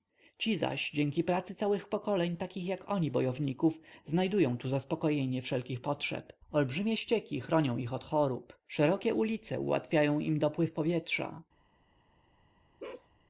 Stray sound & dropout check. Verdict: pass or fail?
fail